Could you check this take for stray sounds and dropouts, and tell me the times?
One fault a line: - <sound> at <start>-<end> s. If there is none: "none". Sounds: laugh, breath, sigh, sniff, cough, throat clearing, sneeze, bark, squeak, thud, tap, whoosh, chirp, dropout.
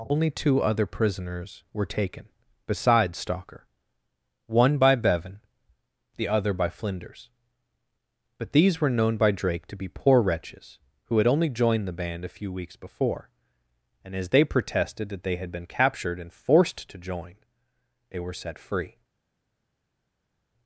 none